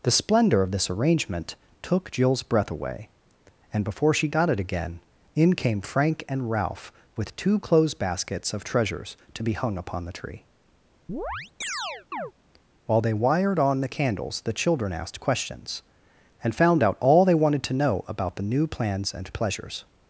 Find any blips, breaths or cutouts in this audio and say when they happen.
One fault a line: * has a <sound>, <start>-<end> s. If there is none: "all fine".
* has a chirp, 11.1-12.3 s